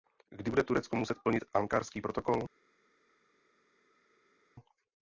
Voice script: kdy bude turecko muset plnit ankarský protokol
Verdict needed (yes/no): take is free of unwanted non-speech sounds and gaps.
yes